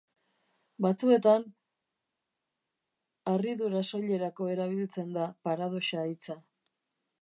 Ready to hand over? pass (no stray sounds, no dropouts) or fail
pass